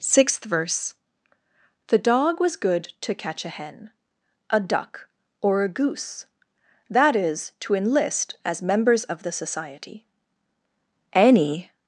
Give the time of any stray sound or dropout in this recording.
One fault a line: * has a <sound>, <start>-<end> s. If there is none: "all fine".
all fine